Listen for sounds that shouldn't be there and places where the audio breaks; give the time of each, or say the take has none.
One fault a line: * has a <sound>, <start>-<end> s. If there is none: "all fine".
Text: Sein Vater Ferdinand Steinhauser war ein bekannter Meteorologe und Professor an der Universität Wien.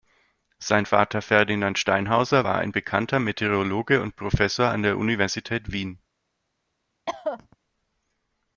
* has a cough, 7.1-7.6 s